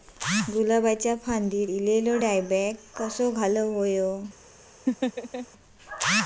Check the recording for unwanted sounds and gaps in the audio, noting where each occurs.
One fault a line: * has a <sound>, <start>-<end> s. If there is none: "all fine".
* has a laugh, 4.9-5.5 s